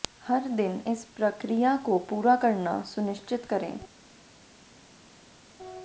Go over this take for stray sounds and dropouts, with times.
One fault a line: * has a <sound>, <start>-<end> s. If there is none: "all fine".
all fine